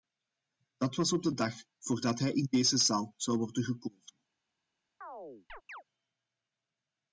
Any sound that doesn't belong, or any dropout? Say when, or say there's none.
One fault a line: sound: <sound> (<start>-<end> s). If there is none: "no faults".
sound: chirp (5.0-5.8 s)